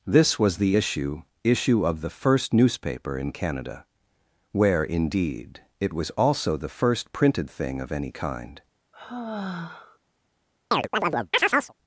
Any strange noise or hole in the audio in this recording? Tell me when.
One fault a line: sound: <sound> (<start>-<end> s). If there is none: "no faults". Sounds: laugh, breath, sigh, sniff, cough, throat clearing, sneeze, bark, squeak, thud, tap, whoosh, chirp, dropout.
sound: sigh (8.9-10.0 s)
sound: chirp (10.7-11.7 s)